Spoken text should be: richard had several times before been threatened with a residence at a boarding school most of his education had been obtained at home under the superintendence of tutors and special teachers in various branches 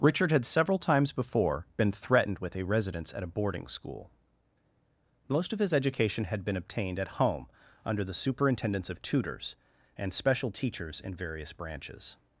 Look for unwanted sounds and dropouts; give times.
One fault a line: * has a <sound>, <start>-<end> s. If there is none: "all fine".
all fine